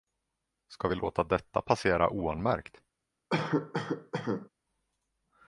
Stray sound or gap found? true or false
true